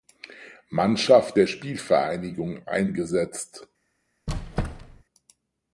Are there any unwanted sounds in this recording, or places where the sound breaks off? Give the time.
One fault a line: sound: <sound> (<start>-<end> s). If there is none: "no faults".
sound: squeak (4.3-5.0 s)